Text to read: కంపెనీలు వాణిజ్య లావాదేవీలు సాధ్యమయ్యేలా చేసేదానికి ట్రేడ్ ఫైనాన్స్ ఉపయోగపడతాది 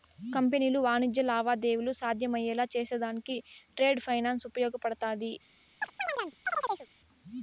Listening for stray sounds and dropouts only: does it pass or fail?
fail